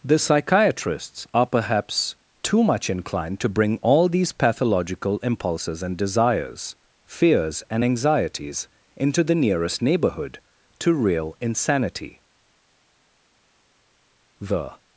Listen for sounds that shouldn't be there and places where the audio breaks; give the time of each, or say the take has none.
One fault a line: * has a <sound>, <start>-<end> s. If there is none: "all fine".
all fine